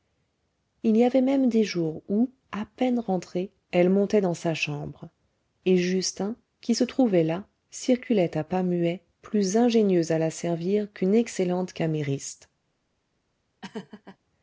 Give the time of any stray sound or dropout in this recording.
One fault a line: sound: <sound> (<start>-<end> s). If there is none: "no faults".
sound: laugh (13.6-14.2 s)